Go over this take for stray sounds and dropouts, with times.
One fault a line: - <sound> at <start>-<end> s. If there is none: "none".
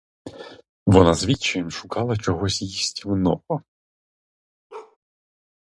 - bark at 4.7-5.0 s